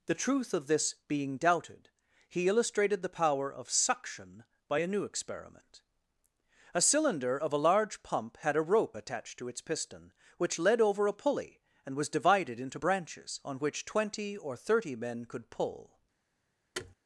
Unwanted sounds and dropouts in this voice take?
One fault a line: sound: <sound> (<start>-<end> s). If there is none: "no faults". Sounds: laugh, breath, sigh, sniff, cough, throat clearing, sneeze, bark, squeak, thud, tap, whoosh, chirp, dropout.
sound: thud (16.7-16.9 s)